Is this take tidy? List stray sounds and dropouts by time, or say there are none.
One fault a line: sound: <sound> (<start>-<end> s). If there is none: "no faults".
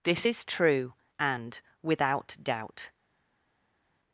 no faults